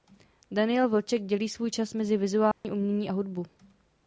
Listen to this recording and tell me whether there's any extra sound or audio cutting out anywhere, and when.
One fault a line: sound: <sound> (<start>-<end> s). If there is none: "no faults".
sound: dropout (2.5-2.6 s)